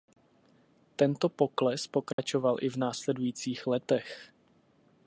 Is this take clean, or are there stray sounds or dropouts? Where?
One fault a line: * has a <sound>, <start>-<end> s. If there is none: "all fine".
* has a dropout, 2.1-2.2 s